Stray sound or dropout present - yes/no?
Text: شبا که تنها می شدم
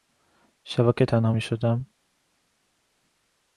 no